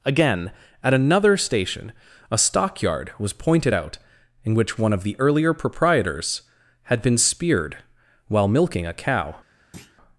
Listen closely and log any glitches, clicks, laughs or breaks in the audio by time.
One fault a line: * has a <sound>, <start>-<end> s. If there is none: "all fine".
* has a thud, 9.7-10.0 s